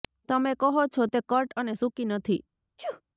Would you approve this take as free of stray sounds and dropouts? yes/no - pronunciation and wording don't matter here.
no